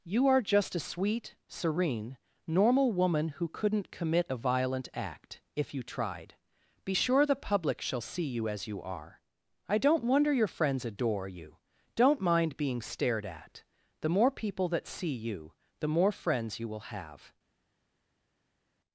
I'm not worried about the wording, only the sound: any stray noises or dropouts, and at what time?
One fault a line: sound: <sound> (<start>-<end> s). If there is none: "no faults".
no faults